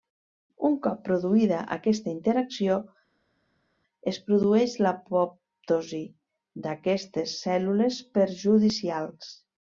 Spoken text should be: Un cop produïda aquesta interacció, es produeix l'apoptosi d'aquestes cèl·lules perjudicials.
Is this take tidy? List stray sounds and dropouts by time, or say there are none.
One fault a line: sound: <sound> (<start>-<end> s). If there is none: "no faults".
no faults